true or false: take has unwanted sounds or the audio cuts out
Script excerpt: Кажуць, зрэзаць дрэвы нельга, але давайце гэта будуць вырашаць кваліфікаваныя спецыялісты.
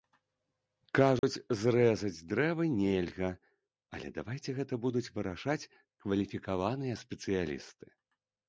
true